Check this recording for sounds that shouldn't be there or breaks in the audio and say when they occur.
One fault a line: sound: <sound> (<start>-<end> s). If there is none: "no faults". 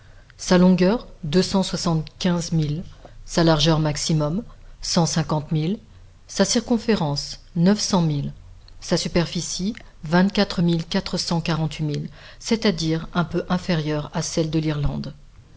no faults